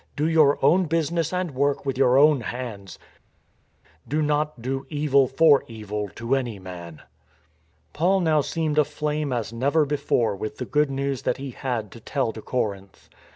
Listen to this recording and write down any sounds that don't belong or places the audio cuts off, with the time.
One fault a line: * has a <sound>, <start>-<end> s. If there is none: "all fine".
all fine